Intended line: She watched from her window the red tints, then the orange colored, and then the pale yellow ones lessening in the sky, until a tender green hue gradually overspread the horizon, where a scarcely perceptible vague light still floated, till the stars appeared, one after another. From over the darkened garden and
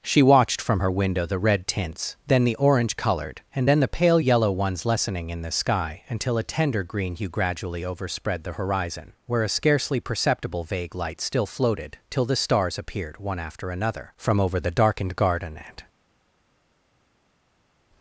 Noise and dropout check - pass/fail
pass